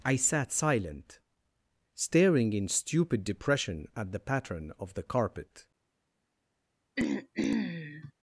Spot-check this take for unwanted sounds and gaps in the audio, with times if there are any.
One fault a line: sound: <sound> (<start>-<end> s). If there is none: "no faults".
sound: throat clearing (7.0-8.1 s)